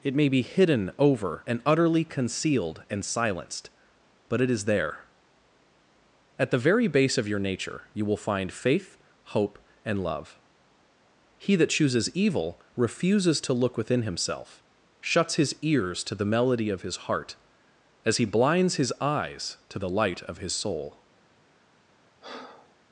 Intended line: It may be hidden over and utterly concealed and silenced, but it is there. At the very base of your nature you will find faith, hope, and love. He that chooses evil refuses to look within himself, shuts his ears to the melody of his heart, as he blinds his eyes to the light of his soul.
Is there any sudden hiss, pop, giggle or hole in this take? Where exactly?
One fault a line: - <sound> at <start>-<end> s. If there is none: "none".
- breath at 22.2-22.7 s